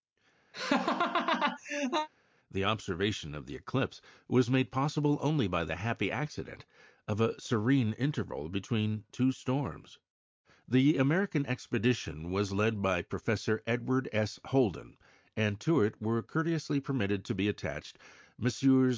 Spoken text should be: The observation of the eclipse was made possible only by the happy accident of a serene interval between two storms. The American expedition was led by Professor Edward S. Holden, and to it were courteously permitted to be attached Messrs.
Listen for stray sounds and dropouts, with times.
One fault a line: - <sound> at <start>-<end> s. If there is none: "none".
- laugh at 0.5-2.1 s